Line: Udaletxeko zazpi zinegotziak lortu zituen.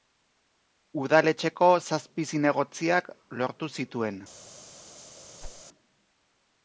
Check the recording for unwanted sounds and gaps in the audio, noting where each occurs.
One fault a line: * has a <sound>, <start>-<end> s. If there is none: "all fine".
* has a whoosh, 5.4-5.6 s